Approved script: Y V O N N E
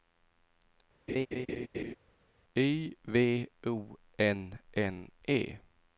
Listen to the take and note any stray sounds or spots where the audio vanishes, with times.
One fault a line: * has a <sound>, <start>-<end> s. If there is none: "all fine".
* has a laugh, 1.1-2.0 s